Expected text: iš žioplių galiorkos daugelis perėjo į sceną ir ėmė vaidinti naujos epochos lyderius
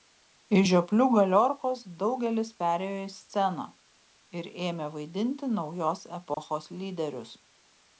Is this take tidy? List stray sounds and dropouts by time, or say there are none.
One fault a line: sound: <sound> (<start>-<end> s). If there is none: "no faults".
sound: dropout (6.3-6.4 s)